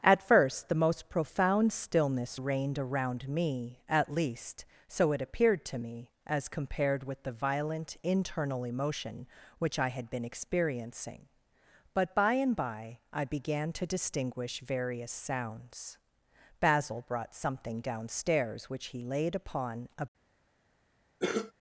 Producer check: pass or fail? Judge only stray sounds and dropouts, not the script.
fail